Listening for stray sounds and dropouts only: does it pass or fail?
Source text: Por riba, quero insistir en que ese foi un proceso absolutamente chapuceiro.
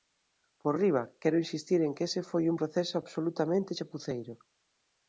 pass